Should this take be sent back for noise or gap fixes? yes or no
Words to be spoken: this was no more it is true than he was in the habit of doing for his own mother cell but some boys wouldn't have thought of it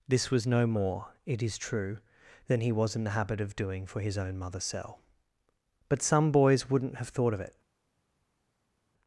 no